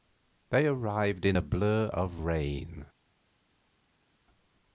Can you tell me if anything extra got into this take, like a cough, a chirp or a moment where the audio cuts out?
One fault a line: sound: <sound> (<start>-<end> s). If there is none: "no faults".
no faults